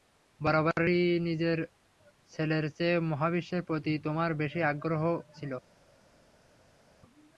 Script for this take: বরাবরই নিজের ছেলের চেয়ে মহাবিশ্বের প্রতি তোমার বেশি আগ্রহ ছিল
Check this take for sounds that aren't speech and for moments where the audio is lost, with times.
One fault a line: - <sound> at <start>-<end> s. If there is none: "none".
none